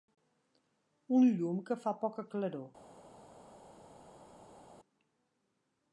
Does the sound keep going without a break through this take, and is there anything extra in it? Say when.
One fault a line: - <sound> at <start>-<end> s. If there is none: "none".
none